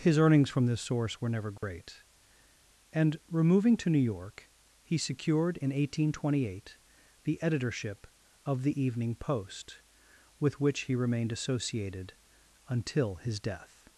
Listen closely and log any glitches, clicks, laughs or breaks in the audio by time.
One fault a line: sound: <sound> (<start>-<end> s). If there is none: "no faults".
sound: dropout (1.6-1.6 s)